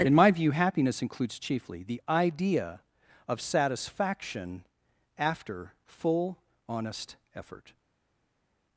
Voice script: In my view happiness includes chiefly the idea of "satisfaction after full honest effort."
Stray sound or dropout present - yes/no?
no